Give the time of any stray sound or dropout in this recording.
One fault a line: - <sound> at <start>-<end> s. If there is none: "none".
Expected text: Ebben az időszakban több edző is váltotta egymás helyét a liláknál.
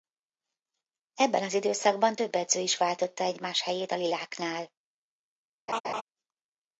- laugh at 5.7-6.0 s